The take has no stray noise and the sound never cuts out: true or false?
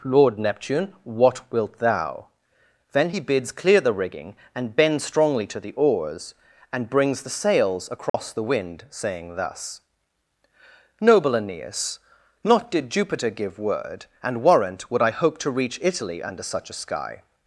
false